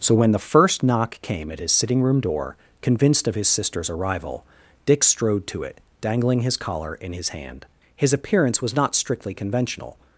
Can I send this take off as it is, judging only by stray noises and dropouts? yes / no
yes